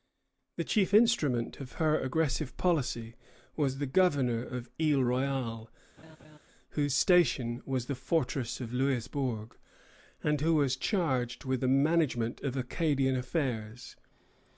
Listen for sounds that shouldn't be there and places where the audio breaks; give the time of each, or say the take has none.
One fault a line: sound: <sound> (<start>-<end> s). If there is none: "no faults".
sound: laugh (6.0-6.4 s)